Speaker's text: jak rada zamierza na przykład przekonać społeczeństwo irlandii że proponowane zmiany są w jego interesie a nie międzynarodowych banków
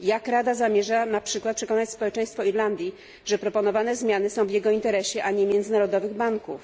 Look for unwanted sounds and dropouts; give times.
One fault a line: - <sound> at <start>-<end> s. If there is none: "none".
none